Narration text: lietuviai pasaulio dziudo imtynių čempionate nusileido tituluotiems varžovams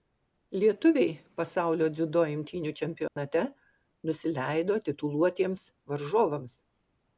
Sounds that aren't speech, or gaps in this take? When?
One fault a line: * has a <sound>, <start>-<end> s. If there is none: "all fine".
* has a dropout, 3.1-3.2 s